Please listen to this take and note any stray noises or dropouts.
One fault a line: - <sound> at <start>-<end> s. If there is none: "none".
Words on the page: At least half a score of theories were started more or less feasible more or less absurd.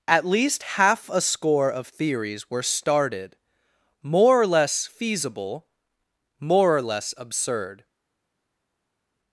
none